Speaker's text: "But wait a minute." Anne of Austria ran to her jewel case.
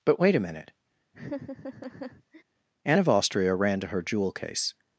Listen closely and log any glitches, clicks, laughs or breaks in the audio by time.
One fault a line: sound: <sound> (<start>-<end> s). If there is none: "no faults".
sound: laugh (1.1-2.4 s)